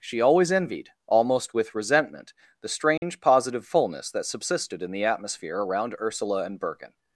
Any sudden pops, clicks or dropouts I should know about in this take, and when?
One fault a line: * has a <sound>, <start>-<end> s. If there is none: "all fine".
* has a dropout, 3.0-3.0 s